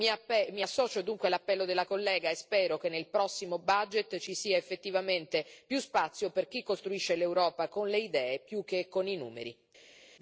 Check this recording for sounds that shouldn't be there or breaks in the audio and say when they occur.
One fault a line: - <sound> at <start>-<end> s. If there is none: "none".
none